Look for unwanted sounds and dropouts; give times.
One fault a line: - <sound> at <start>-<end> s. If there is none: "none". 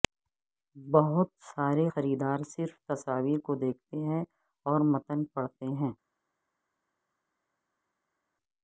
none